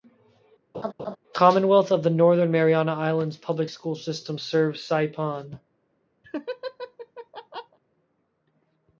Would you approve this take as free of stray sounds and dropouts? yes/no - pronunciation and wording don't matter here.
no